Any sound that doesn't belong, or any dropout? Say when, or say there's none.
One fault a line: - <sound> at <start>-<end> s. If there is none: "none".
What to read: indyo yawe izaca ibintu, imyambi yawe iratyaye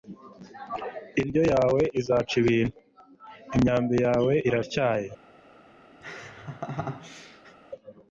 - laugh at 6.0-7.6 s